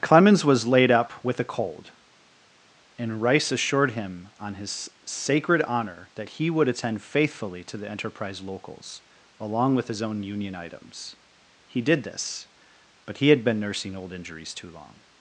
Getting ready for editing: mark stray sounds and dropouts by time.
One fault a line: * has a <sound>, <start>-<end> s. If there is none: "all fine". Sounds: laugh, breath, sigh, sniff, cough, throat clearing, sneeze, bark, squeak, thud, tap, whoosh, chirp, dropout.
all fine